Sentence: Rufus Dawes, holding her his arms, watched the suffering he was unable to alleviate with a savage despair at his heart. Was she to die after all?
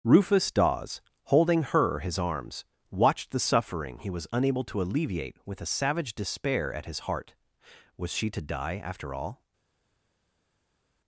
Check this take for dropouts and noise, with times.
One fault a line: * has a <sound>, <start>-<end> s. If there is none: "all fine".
all fine